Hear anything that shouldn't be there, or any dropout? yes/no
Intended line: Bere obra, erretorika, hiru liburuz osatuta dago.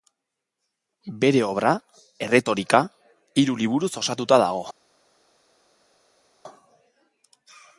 no